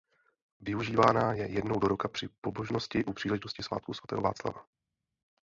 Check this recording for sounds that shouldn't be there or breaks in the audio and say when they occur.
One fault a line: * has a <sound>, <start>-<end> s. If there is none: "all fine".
all fine